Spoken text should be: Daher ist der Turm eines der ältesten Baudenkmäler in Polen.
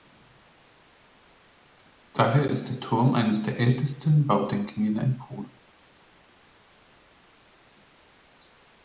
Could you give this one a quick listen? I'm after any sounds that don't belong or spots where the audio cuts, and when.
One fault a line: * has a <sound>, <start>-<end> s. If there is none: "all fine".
all fine